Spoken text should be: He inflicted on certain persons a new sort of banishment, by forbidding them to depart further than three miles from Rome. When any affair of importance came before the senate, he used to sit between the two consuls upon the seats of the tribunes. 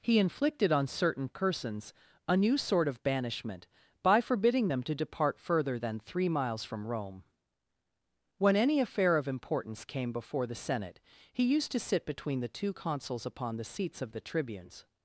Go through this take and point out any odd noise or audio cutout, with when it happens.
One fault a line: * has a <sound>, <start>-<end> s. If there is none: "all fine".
all fine